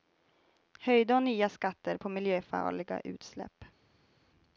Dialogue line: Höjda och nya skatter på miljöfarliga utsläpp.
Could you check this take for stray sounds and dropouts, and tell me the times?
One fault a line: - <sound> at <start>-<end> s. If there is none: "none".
none